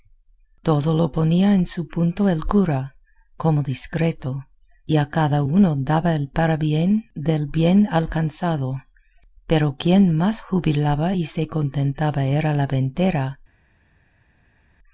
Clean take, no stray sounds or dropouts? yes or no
yes